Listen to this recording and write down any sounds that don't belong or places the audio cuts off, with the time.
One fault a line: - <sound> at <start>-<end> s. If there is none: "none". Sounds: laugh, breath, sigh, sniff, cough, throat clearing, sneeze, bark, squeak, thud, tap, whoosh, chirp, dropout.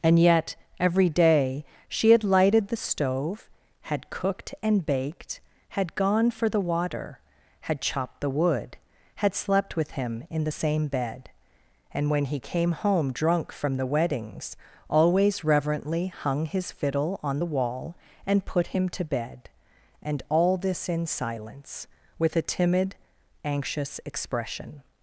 none